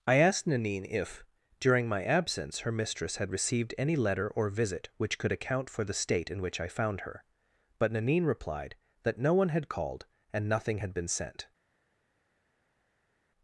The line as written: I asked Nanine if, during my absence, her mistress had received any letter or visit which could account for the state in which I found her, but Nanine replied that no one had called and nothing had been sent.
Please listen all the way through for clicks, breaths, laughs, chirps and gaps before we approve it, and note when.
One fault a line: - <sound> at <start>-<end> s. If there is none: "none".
none